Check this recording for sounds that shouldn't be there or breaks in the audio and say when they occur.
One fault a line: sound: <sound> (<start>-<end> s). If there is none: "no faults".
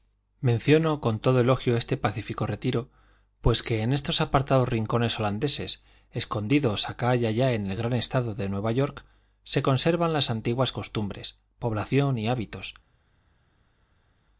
no faults